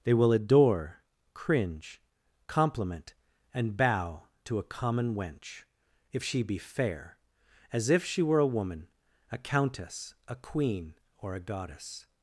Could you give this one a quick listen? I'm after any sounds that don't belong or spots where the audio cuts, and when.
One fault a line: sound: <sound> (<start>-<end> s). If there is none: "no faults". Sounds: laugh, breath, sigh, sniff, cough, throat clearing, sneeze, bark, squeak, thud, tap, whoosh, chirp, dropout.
no faults